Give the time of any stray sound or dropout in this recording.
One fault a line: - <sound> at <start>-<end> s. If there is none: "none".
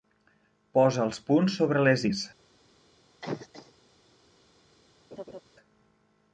- cough at 3.2-3.7 s
- laugh at 5.1-5.4 s